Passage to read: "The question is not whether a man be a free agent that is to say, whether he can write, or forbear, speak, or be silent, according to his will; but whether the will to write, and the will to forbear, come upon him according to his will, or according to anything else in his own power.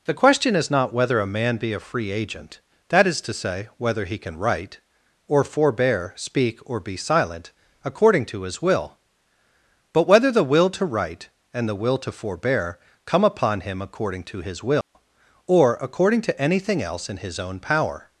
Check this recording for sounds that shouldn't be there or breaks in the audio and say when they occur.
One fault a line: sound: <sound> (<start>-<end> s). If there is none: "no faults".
sound: dropout (14.8-14.9 s)